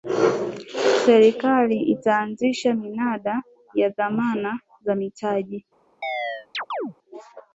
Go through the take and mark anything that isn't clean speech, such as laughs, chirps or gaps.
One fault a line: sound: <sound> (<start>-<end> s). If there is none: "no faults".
sound: chirp (6.0-6.9 s)